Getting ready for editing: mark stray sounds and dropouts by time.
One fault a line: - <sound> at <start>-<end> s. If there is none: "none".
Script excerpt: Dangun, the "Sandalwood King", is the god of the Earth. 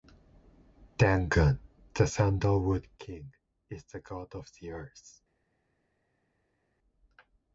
none